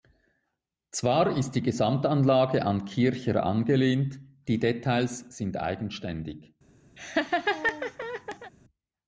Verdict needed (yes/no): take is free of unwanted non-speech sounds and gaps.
no